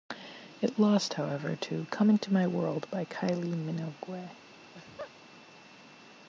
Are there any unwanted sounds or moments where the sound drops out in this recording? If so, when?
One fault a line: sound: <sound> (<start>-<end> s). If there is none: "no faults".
sound: laugh (4.6-5.1 s)